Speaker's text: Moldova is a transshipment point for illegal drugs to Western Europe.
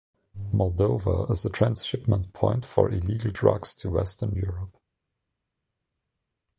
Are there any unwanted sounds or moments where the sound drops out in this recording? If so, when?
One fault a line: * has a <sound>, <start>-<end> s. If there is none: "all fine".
all fine